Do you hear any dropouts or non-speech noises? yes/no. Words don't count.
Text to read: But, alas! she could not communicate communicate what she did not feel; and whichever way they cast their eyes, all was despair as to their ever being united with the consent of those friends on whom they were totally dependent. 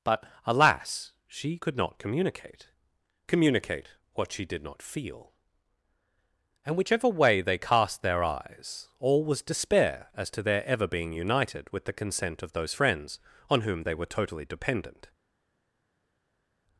no